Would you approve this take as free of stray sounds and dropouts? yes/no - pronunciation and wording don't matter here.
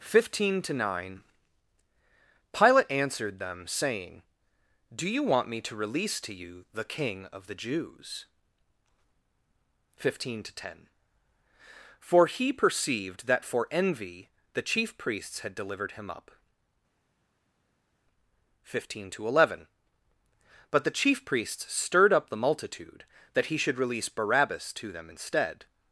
yes